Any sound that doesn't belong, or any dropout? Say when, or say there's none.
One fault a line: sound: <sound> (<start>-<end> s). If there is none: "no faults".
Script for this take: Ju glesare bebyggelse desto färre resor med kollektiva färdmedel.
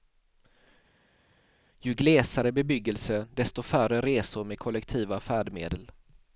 no faults